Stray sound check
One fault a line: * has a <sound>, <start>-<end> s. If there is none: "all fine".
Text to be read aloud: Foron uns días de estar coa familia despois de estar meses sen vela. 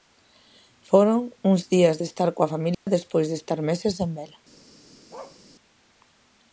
* has a dropout, 2.7-2.9 s
* has a bark, 5.1-5.4 s